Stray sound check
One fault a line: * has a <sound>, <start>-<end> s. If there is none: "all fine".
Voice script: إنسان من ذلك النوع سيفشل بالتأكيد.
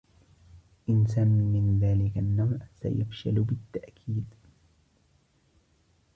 all fine